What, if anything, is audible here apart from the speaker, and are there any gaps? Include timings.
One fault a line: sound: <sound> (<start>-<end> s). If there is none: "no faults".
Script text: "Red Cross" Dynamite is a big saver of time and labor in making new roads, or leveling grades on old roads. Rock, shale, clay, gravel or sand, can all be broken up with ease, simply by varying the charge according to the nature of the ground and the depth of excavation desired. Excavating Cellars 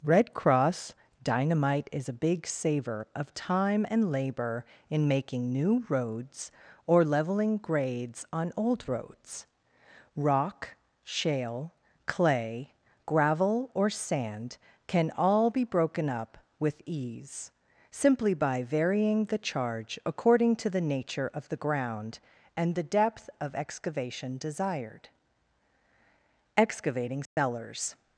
sound: dropout (27.3-27.4 s)